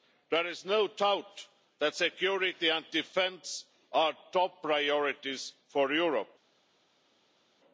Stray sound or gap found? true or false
false